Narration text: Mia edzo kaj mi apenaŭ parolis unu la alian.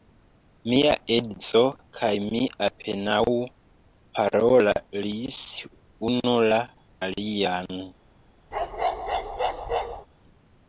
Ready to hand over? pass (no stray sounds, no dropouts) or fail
fail